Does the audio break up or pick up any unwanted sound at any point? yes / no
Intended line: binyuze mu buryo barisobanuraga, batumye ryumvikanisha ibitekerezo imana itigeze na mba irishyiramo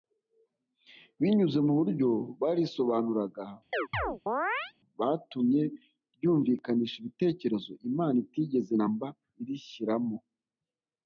yes